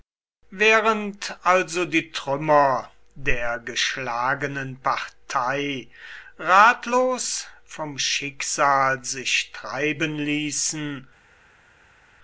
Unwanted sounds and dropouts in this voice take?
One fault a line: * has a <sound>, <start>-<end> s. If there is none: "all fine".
all fine